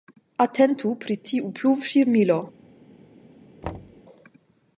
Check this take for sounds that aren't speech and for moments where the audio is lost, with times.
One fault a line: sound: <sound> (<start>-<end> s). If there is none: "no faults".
sound: thud (3.6-4.0 s)